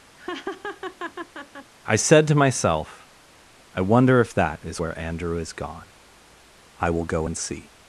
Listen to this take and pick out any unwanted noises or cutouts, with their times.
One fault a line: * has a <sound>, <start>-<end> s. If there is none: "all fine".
* has a laugh, 0.2-1.7 s